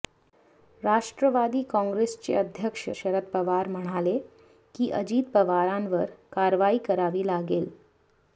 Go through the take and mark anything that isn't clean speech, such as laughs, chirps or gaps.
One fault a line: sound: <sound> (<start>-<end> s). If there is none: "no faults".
no faults